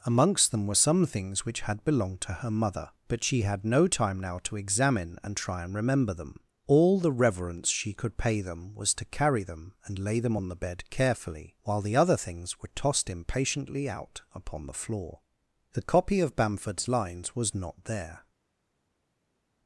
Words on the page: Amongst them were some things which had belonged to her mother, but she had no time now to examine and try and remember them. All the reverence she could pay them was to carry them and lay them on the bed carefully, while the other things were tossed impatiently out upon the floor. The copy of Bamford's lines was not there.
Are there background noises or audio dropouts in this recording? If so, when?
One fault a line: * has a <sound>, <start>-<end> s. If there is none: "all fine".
all fine